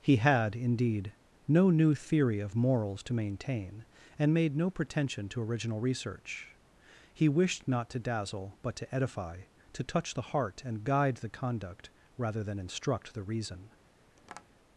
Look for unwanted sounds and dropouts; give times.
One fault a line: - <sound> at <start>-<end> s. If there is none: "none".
- tap at 14.2-14.5 s